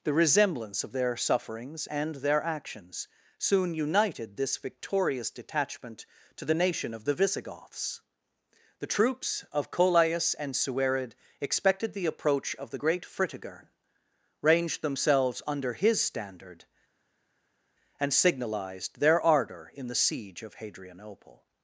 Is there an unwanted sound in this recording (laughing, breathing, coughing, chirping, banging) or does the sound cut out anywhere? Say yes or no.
no